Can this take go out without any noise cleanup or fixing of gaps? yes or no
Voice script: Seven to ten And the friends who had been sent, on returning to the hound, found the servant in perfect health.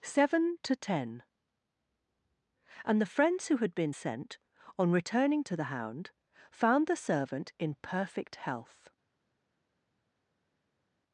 yes